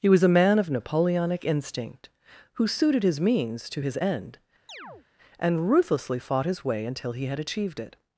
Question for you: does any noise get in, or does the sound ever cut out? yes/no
yes